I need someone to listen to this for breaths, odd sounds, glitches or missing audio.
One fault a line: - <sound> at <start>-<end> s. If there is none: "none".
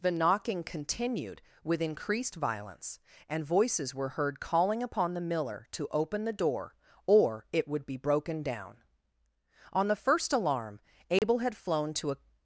- dropout at 11.2-11.2 s